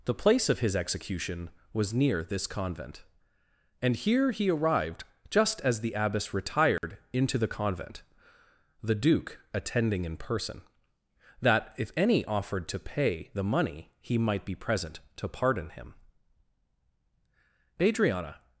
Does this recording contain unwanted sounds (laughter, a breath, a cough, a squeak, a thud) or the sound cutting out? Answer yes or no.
yes